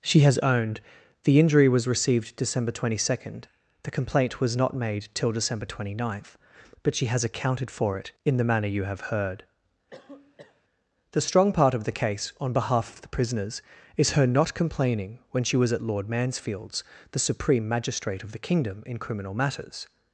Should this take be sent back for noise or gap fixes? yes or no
yes